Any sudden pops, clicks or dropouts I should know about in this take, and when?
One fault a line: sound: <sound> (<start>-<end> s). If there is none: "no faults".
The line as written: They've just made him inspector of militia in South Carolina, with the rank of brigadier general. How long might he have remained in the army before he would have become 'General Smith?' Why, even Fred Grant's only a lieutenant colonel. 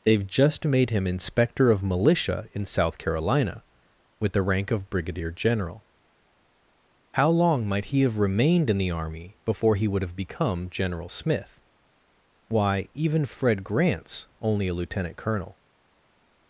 no faults